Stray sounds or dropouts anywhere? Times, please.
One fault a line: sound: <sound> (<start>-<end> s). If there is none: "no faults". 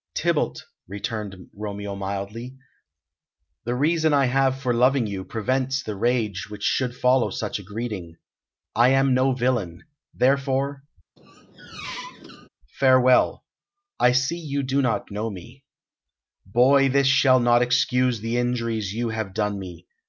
sound: squeak (11.2-12.5 s)